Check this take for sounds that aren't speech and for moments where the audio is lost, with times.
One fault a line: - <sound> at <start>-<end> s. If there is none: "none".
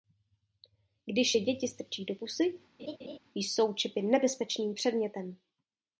- laugh at 2.8-3.2 s